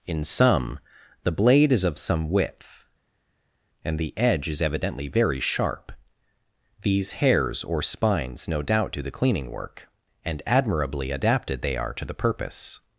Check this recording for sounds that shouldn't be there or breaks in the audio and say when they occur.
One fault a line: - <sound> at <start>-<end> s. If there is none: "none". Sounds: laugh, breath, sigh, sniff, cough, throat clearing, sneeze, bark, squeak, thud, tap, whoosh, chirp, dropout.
none